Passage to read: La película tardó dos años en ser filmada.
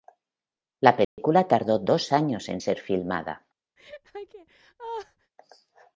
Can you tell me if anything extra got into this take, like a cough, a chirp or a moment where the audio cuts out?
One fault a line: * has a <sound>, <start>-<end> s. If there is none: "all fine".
* has a dropout, 1.0-1.2 s
* has a laugh, 3.8-5.3 s